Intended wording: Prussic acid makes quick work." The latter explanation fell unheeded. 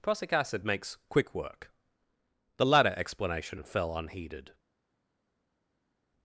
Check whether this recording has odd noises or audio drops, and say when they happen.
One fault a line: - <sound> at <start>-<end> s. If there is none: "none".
none